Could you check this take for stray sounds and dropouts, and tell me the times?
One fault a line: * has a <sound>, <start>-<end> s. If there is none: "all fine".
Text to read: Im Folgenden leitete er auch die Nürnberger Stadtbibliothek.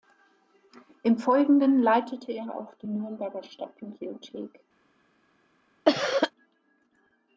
* has a cough, 5.8-6.3 s